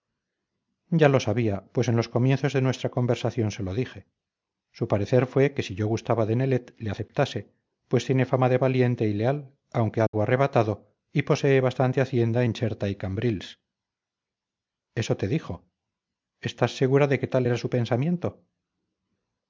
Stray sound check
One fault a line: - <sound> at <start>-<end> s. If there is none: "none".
- dropout at 10.1-10.1 s